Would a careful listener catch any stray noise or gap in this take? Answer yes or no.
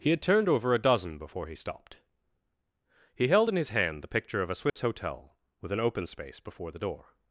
yes